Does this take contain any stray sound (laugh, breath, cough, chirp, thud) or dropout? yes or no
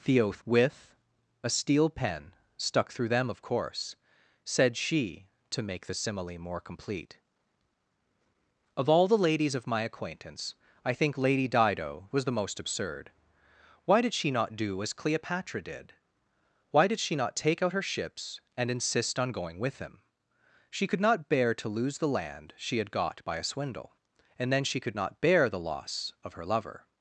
no